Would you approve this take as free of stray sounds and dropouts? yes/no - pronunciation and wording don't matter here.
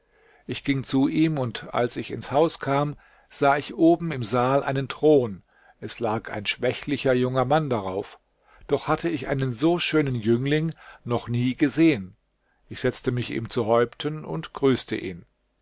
yes